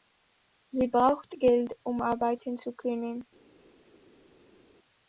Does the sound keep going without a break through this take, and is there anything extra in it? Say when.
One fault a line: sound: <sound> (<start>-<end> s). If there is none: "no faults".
no faults